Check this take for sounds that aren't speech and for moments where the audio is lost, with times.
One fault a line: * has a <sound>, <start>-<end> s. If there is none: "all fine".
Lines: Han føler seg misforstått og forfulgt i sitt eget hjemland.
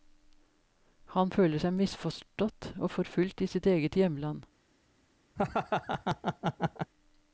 * has a laugh, 5.4-6.9 s